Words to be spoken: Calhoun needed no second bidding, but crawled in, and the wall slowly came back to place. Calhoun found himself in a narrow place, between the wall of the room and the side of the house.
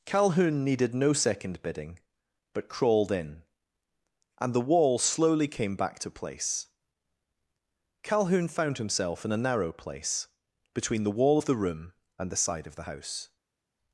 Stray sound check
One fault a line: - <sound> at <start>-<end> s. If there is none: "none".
none